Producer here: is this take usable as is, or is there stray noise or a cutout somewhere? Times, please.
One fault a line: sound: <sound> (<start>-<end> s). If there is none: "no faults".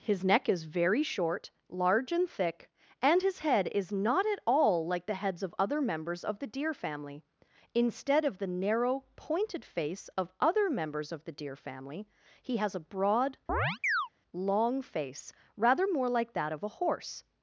sound: chirp (13.5-14.1 s)